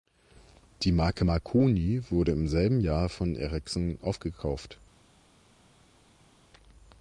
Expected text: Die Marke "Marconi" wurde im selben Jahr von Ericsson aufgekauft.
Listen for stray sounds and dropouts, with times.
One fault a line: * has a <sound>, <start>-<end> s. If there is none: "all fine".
all fine